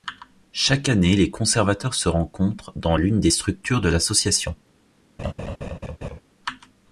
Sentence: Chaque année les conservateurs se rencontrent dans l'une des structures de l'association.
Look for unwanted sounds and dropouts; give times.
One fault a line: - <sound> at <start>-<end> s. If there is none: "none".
- laugh at 5.2-6.2 s